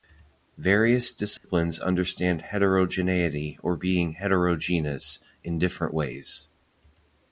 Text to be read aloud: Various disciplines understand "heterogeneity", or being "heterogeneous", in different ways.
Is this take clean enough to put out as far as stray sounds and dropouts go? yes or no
no